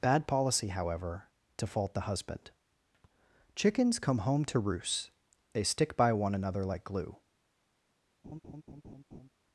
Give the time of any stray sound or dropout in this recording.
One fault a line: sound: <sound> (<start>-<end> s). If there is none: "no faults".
sound: laugh (8.2-9.3 s)